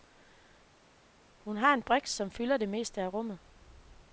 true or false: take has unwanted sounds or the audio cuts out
false